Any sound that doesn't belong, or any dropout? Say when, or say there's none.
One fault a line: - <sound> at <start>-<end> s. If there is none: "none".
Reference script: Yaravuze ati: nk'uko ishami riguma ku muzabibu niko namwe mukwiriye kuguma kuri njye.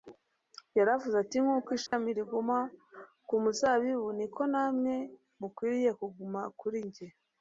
- dropout at 1.9-1.9 s